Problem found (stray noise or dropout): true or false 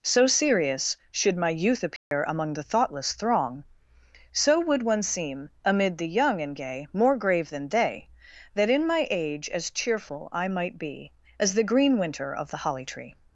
true